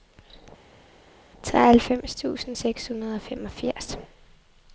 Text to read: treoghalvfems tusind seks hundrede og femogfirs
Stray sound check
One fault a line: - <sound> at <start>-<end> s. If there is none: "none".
none